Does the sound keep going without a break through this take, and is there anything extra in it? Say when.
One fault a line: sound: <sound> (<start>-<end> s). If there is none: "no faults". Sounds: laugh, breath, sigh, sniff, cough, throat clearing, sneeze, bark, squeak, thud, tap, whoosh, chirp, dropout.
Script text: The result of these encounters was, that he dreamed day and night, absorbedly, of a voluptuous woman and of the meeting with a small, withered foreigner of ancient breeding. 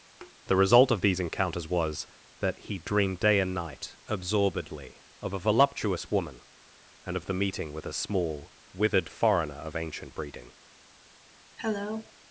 sound: thud (0.2-0.4 s)
sound: cough (11.6-12.1 s)